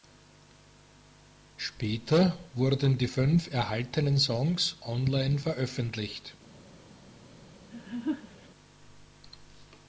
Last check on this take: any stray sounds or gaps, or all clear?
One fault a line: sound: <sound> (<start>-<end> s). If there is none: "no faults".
sound: laugh (7.7-8.5 s)